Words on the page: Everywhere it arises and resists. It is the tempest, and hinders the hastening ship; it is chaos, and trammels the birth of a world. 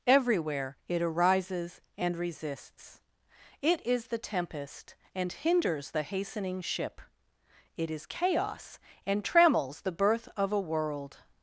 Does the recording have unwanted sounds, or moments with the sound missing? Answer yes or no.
no